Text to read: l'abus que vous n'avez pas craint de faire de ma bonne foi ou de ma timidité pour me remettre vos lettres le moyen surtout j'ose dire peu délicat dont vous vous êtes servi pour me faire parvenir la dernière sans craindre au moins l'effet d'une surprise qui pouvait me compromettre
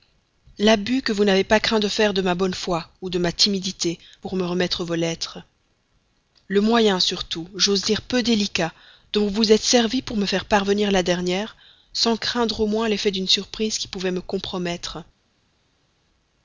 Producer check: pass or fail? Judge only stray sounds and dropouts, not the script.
pass